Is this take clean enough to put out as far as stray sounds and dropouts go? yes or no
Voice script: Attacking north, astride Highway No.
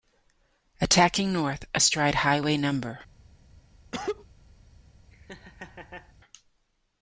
no